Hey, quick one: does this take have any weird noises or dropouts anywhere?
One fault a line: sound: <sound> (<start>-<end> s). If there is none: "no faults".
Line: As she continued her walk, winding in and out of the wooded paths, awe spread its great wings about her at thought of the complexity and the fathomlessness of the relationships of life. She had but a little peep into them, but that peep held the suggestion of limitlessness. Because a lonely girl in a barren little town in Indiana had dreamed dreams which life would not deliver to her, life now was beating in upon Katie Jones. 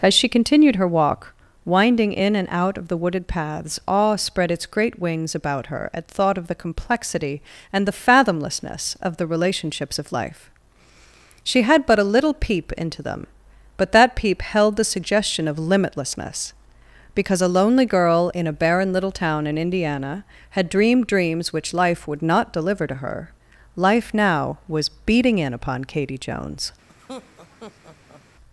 sound: laugh (26.9-28.2 s)